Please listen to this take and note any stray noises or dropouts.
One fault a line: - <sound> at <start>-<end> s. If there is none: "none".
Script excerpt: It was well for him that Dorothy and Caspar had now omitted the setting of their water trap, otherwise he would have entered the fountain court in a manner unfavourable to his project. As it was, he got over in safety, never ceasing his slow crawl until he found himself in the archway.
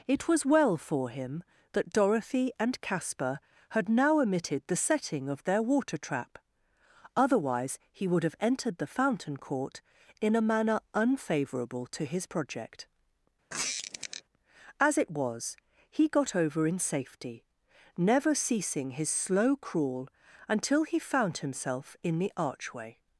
- squeak at 13.5-14.2 s